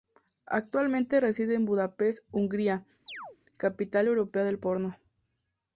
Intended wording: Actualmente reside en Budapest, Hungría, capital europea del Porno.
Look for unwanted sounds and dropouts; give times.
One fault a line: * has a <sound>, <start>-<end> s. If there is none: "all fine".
* has a chirp, 3.1-3.4 s